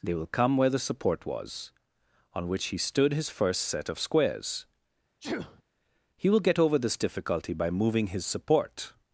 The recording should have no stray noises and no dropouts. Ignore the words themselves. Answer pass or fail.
fail